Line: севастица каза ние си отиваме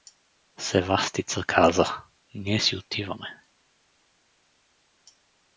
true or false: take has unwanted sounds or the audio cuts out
false